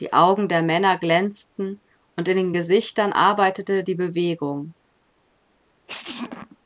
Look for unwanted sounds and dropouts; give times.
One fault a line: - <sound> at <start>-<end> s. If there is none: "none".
- sneeze at 5.9-6.6 s